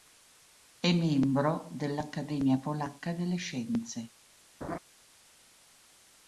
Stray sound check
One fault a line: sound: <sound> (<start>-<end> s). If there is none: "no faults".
sound: laugh (4.6-4.8 s)